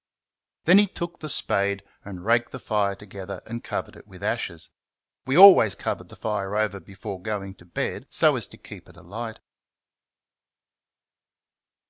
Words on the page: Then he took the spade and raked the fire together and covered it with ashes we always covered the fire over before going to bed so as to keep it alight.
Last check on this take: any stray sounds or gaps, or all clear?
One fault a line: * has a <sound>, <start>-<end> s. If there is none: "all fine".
all fine